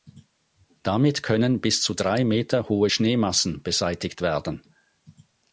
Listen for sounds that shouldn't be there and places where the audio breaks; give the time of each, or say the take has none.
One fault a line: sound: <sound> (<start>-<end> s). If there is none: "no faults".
no faults